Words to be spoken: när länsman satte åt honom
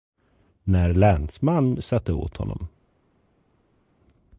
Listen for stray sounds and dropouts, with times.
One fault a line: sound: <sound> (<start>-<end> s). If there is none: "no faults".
no faults